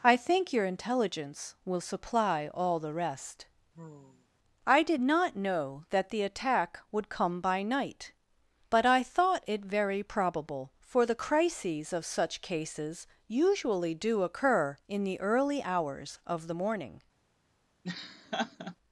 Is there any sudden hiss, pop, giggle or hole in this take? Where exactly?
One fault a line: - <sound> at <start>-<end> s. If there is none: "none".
- sigh at 3.7-4.3 s
- laugh at 17.8-18.8 s